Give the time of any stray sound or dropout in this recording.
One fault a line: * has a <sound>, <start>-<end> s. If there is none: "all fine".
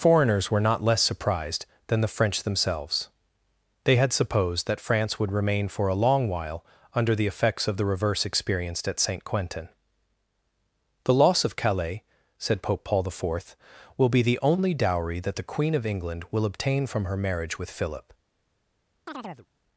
* has a chirp, 19.1-19.5 s